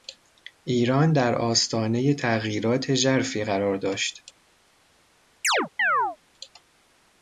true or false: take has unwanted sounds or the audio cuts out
true